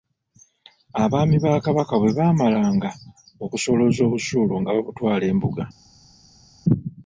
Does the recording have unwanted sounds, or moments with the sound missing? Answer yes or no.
no